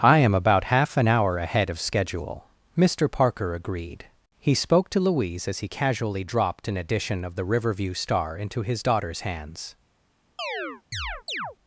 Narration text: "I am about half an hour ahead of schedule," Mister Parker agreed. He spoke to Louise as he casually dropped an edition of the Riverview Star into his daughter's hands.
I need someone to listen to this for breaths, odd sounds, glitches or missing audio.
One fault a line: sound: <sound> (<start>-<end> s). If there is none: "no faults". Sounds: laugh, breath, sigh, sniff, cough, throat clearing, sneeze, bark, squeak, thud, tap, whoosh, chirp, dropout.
sound: chirp (10.4-11.6 s)